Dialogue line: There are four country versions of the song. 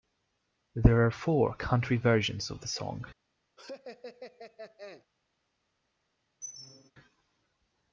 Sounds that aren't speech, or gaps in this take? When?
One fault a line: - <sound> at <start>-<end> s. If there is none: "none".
- laugh at 3.6-5.1 s
- squeak at 6.4-6.9 s